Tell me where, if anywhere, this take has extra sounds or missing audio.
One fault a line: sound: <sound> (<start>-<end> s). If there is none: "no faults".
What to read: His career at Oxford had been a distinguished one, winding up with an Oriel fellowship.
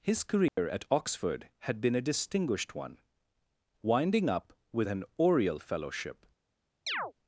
sound: dropout (0.5-0.6 s)
sound: chirp (6.9-7.1 s)